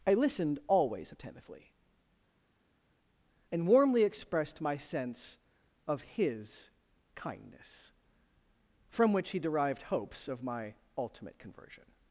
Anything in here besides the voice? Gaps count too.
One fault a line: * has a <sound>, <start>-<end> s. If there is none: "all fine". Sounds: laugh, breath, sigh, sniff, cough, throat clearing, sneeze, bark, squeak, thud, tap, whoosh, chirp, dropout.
all fine